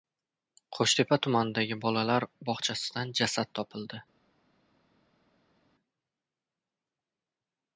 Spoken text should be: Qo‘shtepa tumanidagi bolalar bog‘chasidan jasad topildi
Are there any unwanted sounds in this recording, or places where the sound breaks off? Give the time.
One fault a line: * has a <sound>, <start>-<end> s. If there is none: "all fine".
all fine